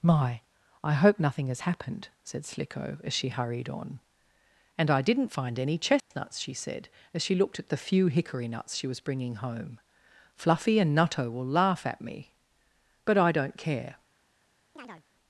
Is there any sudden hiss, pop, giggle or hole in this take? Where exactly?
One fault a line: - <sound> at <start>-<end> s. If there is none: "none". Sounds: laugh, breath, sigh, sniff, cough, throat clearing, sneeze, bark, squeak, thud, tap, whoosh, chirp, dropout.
- dropout at 6.0-6.1 s
- chirp at 14.8-15.0 s